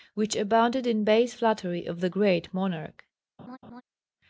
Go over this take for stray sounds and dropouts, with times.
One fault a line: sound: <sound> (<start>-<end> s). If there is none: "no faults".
sound: laugh (3.4-3.8 s)